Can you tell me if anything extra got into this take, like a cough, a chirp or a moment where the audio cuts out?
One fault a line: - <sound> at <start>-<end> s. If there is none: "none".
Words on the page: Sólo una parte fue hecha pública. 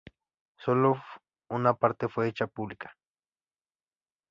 none